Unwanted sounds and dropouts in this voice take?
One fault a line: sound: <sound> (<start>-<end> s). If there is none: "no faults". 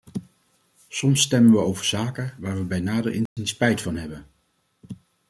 sound: dropout (3.3-3.4 s)